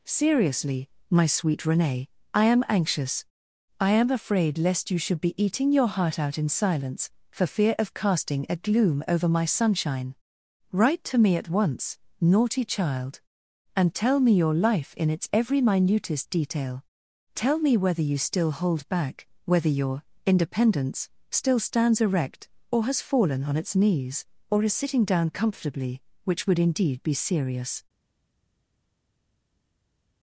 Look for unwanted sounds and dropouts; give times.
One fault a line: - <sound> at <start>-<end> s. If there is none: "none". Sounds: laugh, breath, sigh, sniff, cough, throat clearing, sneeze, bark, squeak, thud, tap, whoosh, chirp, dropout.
none